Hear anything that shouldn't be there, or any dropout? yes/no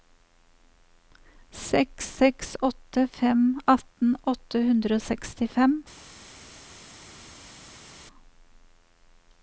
no